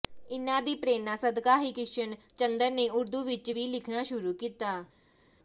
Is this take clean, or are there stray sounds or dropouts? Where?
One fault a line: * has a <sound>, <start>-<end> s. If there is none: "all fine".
all fine